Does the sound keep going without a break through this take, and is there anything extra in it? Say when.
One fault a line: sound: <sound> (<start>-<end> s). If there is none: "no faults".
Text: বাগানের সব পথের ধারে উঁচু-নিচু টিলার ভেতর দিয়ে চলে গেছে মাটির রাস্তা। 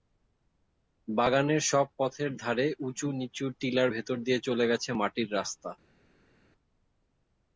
no faults